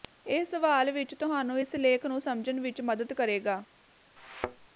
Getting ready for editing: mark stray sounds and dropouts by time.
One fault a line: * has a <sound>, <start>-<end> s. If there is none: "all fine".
* has a thud, 4.2-4.7 s